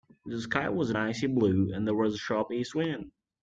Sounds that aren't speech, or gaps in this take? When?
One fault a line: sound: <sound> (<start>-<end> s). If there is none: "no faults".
no faults